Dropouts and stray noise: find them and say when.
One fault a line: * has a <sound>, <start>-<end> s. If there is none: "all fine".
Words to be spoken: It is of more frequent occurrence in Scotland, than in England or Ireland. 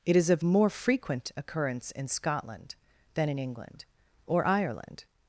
all fine